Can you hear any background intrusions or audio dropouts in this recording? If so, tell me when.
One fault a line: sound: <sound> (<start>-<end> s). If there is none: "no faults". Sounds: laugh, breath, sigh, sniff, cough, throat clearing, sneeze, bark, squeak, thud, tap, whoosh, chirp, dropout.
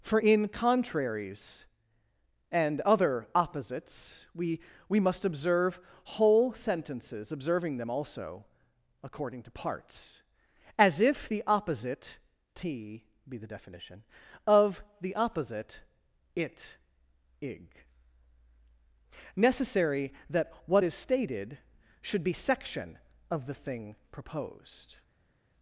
no faults